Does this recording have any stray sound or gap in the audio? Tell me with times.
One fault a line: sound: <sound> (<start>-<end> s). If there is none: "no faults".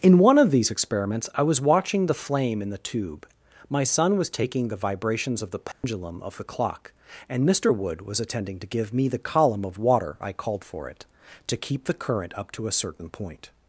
sound: dropout (5.7-5.8 s)